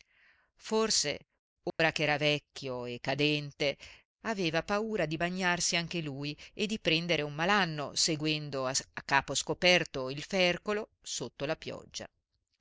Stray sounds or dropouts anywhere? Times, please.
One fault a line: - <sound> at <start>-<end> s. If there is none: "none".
- dropout at 1.7-1.8 s